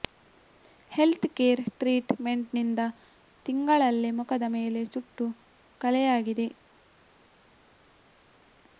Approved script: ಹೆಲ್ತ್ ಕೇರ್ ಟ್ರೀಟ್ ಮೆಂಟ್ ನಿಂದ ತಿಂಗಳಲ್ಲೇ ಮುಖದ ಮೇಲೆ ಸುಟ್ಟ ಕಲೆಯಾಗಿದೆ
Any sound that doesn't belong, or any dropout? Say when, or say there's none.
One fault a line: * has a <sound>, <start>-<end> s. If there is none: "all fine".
all fine